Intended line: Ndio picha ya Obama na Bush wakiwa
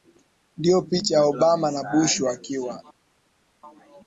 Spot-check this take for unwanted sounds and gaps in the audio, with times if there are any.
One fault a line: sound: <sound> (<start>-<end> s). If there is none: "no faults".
no faults